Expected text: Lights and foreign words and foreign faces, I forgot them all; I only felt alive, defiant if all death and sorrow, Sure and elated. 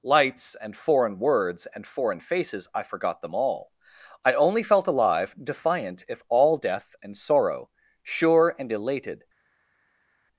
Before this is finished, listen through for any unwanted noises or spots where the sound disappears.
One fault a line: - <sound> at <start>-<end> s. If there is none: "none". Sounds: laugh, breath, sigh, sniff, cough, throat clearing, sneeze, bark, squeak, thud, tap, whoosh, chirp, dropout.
none